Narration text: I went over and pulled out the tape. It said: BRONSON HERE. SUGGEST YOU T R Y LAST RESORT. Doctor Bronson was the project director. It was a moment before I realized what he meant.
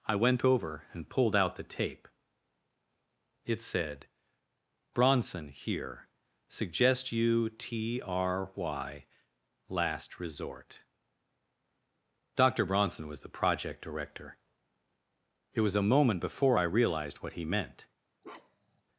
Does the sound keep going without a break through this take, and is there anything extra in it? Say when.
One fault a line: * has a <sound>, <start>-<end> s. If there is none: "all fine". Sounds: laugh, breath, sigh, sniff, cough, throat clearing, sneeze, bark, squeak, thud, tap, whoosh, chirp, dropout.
* has a bark, 18.2-18.8 s